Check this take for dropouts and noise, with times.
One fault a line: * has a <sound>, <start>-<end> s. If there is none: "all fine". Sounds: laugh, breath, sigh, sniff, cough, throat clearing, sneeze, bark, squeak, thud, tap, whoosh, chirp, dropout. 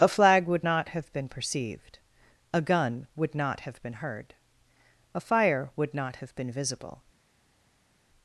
all fine